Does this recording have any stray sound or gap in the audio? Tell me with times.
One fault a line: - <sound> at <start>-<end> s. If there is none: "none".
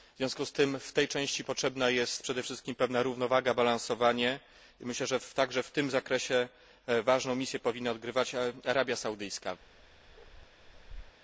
- bark at 9.6-11.2 s